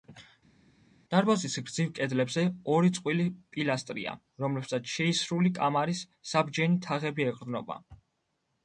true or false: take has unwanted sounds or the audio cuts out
false